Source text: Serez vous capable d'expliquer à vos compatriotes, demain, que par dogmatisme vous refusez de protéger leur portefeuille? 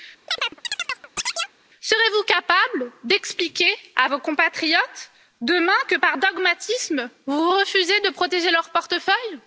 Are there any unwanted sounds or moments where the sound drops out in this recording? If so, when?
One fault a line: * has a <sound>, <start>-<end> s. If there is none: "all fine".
* has a chirp, 0.3-1.6 s